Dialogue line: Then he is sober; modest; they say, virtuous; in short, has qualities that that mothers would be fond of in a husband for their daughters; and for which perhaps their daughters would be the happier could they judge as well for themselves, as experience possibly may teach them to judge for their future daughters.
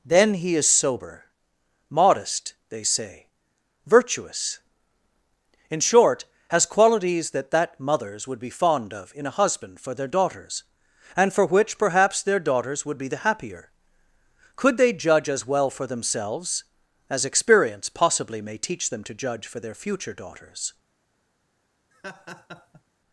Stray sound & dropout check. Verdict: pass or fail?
fail